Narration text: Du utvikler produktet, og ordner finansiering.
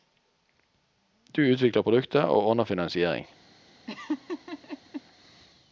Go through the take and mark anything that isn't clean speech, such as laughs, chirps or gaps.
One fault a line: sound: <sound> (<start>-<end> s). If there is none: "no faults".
sound: laugh (3.9-5.0 s)